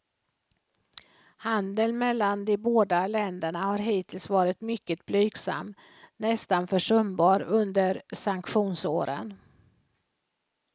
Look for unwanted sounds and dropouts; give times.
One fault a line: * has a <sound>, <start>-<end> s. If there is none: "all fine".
all fine